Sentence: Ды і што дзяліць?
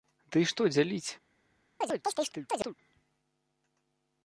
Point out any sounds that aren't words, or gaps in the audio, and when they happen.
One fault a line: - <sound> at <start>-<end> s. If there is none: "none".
- chirp at 1.8-2.7 s